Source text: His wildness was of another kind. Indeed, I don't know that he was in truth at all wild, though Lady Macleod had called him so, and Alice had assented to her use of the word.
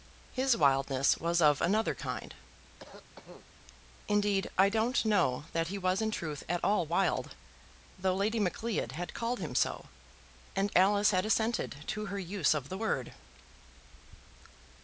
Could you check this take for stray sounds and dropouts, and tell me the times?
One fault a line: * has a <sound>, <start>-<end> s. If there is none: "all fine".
* has a cough, 2.8-3.5 s